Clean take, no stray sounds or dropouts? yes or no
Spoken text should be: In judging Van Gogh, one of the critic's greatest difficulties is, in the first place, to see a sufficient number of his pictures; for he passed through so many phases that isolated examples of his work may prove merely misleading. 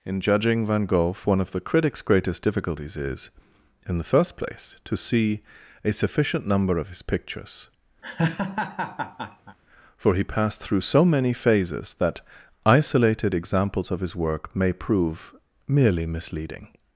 no